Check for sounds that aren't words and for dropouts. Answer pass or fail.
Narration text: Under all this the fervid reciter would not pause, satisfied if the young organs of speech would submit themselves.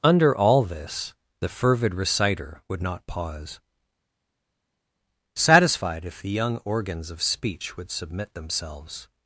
pass